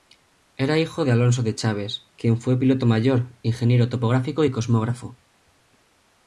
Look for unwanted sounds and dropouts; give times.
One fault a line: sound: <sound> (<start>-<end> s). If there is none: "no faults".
no faults